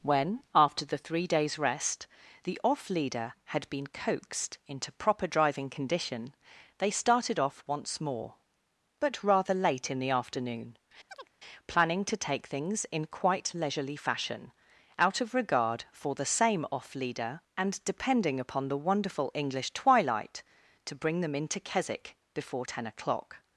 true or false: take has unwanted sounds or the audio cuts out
true